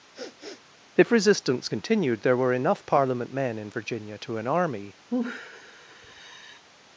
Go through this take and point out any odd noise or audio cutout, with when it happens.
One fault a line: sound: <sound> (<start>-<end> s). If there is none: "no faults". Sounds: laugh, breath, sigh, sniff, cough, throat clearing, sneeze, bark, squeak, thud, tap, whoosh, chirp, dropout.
sound: sniff (0.1-0.6 s)
sound: sigh (5.1-6.6 s)